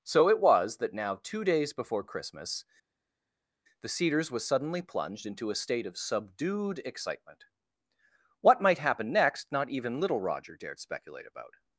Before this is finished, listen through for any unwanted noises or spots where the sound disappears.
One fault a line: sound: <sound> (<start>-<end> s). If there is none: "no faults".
no faults